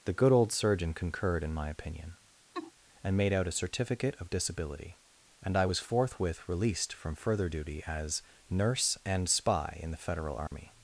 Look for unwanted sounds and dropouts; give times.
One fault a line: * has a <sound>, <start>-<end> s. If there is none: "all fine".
* has a laugh, 2.5-2.7 s
* has a dropout, 10.5-10.5 s